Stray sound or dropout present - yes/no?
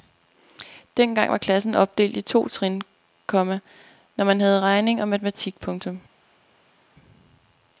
no